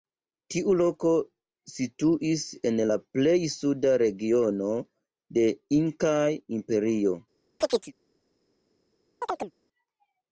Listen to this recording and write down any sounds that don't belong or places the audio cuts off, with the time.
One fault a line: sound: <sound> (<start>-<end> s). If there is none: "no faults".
sound: chirp (7.6-7.9 s)
sound: chirp (9.2-9.5 s)